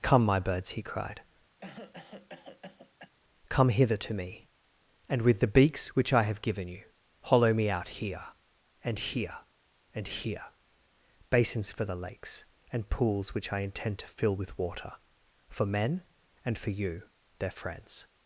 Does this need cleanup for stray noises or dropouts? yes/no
yes